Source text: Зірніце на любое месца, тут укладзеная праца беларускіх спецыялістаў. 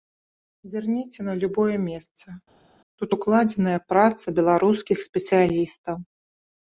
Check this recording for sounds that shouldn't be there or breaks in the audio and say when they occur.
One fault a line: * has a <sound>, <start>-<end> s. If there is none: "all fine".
all fine